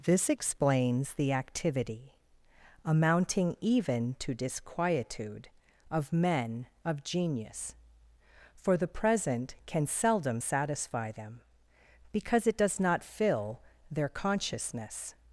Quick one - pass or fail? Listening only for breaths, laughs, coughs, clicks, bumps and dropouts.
pass